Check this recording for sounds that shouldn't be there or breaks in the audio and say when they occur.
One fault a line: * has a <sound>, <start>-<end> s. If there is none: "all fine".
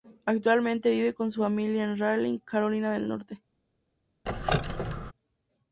* has a squeak, 4.3-5.1 s